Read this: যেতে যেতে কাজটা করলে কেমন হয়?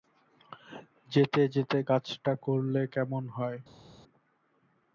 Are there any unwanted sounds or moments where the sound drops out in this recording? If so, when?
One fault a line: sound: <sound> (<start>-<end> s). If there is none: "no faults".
no faults